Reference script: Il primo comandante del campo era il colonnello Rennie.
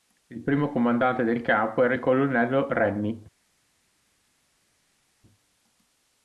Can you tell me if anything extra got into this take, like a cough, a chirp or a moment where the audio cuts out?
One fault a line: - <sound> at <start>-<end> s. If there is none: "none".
none